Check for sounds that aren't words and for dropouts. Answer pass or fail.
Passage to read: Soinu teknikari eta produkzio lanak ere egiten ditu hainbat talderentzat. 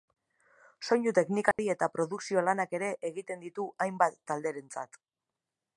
fail